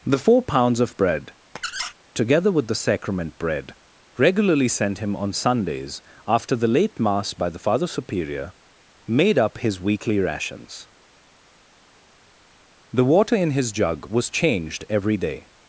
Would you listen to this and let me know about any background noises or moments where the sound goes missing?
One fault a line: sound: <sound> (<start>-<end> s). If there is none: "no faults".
sound: squeak (1.6-1.9 s)